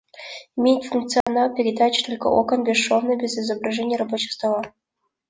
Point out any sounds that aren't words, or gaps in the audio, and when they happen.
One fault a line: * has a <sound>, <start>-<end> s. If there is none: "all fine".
* has a dropout, 1.2-1.3 s